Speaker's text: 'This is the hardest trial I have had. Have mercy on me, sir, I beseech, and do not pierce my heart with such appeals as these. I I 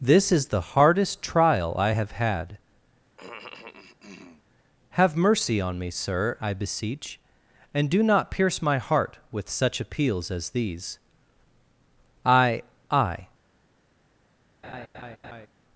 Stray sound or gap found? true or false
true